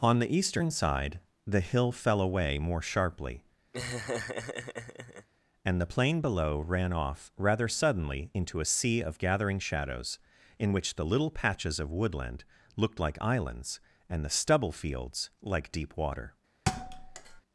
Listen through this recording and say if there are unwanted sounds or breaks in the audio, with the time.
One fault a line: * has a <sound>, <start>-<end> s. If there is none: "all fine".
* has a laugh, 3.7-5.3 s
* has a thud, 16.7-17.4 s